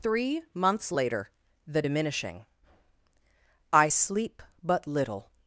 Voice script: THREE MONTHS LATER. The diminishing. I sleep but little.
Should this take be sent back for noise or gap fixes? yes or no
no